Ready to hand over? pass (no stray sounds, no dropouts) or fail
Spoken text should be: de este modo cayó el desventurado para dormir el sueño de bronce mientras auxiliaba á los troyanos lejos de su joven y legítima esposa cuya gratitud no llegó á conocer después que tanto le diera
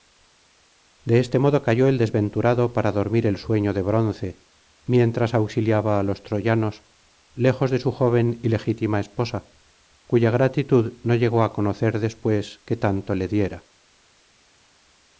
pass